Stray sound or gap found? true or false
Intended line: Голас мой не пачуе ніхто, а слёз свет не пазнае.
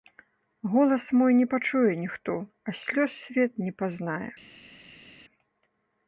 false